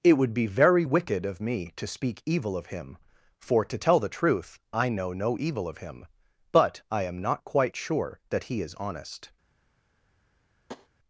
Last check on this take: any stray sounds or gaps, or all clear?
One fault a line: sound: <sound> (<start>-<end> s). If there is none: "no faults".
sound: tap (10.7-10.9 s)